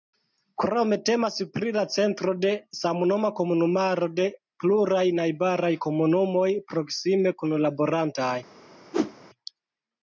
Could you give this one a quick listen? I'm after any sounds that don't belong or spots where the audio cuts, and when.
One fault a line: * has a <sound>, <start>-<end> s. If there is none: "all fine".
* has a whoosh, 8.9-9.1 s